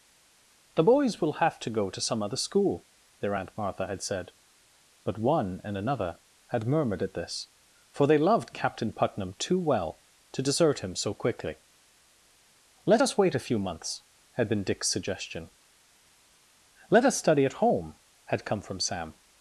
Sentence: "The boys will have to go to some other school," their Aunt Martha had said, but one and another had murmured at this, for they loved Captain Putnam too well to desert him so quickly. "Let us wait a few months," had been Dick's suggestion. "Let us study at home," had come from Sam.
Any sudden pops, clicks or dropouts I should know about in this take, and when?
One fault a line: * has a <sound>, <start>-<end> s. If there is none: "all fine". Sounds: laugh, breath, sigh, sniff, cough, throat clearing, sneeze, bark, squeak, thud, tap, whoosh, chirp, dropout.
all fine